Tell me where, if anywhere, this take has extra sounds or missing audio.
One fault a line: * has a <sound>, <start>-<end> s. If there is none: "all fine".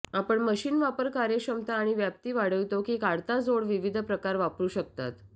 all fine